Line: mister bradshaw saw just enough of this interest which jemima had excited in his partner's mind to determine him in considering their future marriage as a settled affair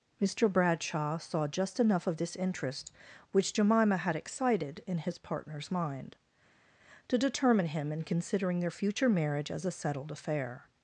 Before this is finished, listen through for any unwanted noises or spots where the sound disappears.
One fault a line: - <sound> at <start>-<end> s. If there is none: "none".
none